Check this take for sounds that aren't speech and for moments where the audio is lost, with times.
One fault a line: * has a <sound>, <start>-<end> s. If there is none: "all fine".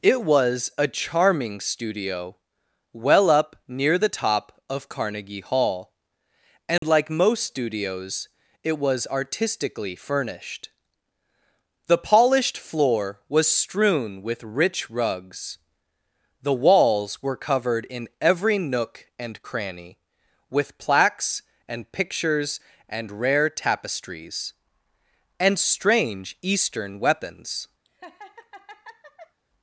* has a dropout, 6.8-6.8 s
* has a laugh, 27.9-29.4 s